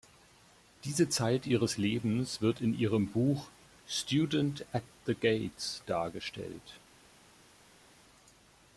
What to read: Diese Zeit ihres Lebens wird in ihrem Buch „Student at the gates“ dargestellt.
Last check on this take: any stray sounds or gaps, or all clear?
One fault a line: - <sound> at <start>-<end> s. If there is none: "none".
none